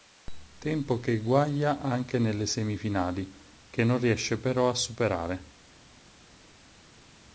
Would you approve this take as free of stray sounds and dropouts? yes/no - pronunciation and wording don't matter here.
yes